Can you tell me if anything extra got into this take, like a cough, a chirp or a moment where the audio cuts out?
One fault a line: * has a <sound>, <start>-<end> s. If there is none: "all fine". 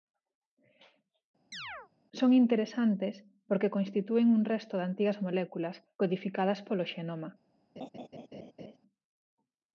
* has a chirp, 1.5-1.9 s
* has a laugh, 7.8-8.8 s